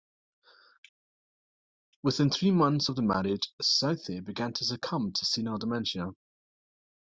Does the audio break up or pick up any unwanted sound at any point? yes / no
no